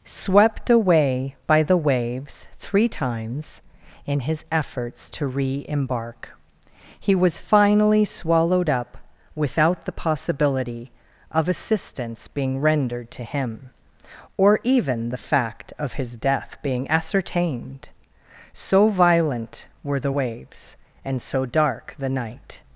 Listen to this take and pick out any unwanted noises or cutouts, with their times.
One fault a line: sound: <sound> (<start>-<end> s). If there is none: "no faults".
no faults